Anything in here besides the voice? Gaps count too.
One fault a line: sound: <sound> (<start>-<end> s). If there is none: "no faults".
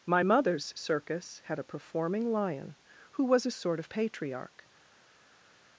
no faults